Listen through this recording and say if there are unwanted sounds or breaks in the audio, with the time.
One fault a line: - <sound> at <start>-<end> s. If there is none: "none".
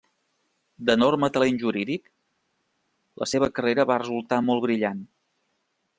none